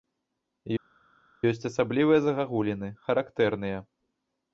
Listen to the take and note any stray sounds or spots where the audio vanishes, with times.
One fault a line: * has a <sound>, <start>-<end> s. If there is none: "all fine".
all fine